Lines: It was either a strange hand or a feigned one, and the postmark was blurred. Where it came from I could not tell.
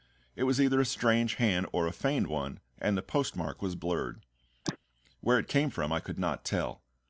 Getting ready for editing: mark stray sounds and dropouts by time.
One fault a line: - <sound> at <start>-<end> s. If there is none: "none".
- sneeze at 4.7-4.8 s